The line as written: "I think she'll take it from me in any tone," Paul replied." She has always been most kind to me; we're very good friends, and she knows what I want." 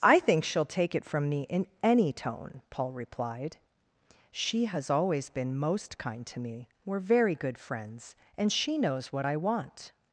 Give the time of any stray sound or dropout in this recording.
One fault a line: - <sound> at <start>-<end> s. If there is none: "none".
none